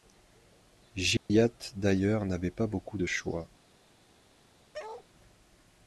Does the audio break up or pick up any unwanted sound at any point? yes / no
yes